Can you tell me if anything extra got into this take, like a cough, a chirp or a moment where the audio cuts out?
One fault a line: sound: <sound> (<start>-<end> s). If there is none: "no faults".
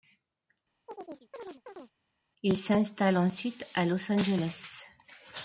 sound: chirp (0.9-1.9 s)